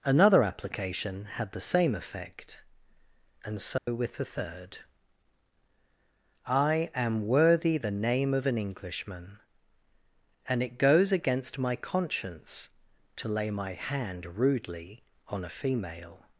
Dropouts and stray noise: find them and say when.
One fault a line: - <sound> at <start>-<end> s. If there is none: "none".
- dropout at 3.8-3.9 s